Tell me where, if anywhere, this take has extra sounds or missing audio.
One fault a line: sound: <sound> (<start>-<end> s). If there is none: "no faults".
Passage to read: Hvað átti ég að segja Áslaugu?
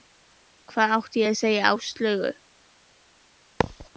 sound: thud (3.6-3.9 s)